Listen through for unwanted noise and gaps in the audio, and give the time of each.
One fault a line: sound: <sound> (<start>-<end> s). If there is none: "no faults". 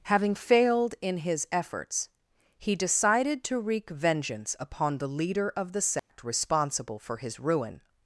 sound: dropout (6.0-6.1 s)